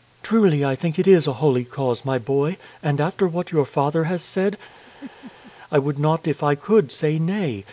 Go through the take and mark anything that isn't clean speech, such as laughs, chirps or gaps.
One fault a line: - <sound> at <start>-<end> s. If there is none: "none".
- laugh at 4.7-5.5 s